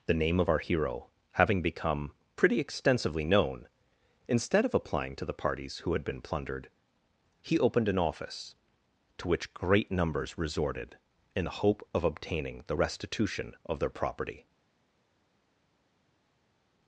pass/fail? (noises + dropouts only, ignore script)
pass